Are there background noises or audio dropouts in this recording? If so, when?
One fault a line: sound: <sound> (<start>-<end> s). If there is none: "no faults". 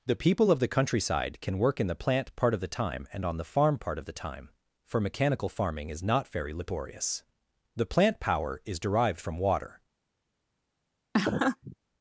sound: laugh (11.1-11.8 s)